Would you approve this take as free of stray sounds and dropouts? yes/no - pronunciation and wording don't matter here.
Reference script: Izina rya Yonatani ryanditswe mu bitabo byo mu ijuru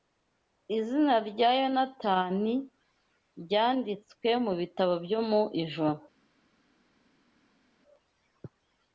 yes